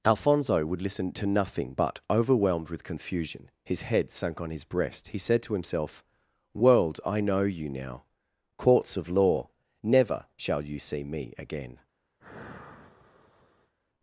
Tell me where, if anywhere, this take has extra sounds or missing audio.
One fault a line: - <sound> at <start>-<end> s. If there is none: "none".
- sigh at 12.2-13.7 s